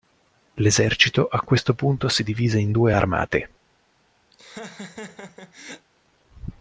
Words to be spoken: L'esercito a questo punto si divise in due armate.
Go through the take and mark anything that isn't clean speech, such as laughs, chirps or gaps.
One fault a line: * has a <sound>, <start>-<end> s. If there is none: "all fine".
* has a laugh, 4.3-5.9 s